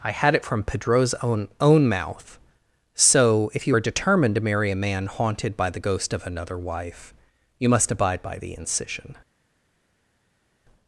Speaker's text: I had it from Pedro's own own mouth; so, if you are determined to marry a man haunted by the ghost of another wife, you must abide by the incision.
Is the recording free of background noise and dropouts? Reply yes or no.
yes